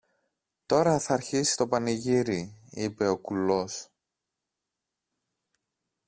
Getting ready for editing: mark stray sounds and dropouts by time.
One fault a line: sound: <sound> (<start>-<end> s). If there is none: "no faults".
no faults